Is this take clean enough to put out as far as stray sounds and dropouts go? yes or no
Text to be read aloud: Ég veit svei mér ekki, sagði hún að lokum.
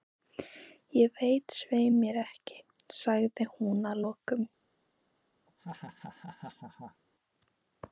no